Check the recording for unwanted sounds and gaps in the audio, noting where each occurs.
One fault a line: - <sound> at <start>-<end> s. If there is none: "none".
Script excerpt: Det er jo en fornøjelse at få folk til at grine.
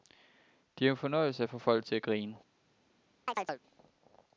- chirp at 3.3-3.6 s